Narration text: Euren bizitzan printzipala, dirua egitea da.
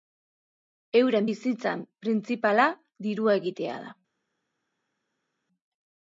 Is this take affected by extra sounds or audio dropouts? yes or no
no